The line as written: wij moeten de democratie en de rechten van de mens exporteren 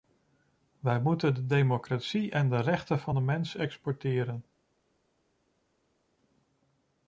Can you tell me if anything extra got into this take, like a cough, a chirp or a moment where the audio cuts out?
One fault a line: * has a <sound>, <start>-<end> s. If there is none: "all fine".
all fine